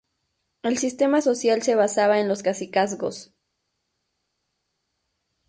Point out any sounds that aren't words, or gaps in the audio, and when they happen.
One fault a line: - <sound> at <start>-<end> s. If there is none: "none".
none